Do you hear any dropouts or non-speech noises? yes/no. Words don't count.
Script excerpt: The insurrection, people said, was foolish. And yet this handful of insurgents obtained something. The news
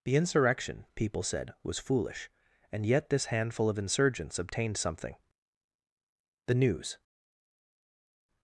no